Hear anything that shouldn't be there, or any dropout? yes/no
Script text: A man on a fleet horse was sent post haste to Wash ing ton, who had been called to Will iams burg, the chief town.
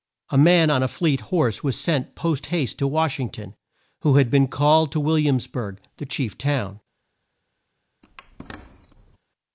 yes